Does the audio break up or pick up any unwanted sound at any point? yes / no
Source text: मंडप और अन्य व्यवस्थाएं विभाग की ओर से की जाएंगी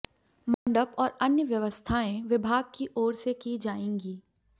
yes